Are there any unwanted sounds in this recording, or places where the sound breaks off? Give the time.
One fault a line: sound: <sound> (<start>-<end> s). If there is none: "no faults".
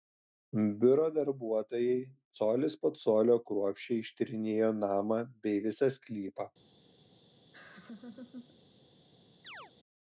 sound: laugh (7.5-8.6 s)
sound: chirp (9.4-9.7 s)